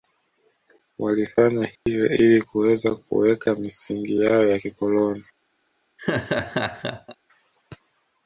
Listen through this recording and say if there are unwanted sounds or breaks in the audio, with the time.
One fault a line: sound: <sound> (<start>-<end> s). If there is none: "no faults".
sound: dropout (1.8-1.9 s)
sound: laugh (6.0-7.2 s)